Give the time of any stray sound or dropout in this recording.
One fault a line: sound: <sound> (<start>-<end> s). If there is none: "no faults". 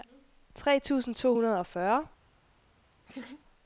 sound: laugh (3.1-3.4 s)